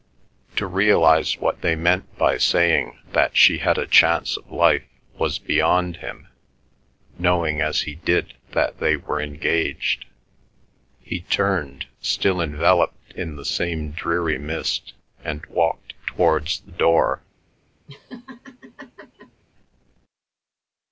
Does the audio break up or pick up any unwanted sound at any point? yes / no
yes